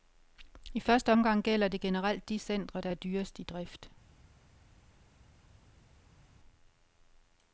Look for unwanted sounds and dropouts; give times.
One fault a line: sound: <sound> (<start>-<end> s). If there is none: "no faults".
no faults